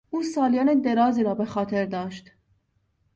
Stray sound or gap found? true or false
false